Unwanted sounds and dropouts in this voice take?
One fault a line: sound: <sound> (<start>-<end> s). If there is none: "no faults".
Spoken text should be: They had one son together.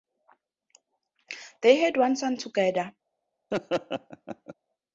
sound: laugh (3.5-4.5 s)